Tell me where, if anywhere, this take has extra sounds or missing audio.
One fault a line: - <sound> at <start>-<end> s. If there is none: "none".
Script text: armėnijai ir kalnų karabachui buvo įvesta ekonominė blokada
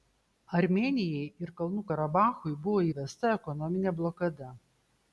none